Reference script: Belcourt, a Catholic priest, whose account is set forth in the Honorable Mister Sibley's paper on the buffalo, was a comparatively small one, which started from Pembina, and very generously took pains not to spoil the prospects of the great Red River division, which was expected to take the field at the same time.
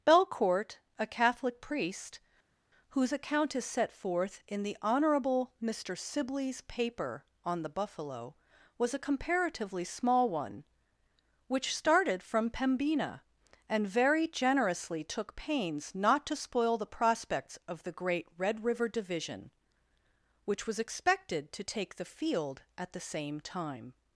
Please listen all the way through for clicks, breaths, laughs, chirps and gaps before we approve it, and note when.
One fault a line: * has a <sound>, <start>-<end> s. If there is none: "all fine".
all fine